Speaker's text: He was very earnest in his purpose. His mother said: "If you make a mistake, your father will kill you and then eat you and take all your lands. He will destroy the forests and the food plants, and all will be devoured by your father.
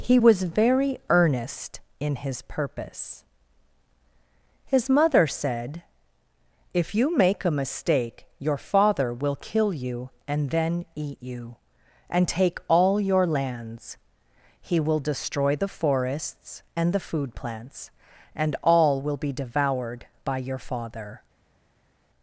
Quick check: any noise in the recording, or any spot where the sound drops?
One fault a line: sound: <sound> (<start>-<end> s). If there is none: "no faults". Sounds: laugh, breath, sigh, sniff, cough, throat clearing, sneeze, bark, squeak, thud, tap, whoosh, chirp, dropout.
no faults